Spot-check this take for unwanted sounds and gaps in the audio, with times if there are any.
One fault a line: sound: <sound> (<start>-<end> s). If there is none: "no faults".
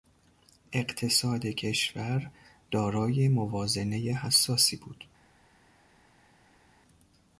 no faults